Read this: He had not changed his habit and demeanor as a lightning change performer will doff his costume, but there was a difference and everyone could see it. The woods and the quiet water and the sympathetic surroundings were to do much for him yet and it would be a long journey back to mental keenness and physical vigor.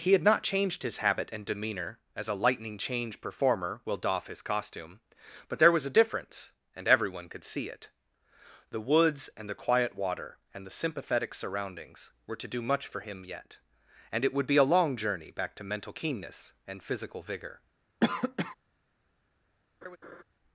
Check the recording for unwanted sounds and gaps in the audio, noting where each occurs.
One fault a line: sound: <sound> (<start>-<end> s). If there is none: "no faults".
sound: cough (18.0-18.5 s)
sound: laugh (19.8-20.2 s)